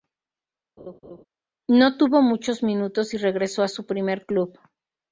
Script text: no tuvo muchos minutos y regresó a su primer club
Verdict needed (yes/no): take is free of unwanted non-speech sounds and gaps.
no